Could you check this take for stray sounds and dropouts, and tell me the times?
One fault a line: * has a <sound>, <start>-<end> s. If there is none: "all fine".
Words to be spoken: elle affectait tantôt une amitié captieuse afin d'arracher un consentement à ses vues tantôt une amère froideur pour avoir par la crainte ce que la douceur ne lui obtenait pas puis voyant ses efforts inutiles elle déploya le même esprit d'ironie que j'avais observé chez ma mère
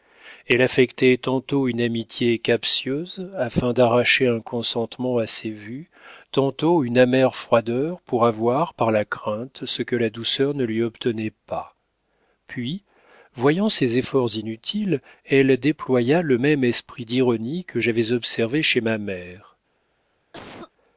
* has a cough, 20.3-20.7 s